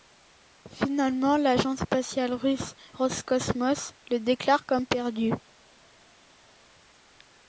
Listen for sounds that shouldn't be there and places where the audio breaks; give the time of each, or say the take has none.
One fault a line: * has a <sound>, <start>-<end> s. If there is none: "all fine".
all fine